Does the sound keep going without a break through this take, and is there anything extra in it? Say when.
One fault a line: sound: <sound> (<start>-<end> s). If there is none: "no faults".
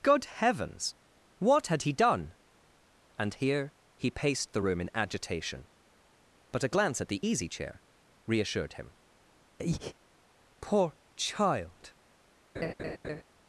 sound: breath (9.6-9.9 s)
sound: laugh (12.5-13.2 s)